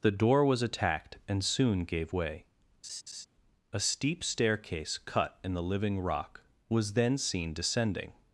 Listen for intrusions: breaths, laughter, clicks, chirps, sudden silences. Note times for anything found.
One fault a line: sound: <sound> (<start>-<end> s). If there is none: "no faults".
sound: laugh (2.8-3.3 s)